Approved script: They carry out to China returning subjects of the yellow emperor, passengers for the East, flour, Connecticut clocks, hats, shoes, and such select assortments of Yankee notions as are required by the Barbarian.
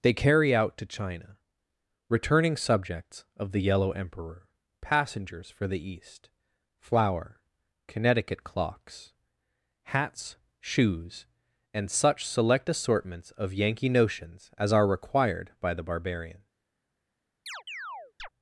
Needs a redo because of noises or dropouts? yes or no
yes